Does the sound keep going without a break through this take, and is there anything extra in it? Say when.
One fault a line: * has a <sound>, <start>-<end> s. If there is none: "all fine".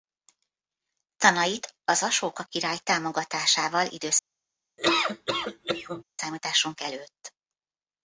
* has a laugh, 4.8-6.0 s